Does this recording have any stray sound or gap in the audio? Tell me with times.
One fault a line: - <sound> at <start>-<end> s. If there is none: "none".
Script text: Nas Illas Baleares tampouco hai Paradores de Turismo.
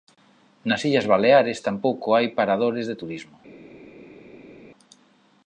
none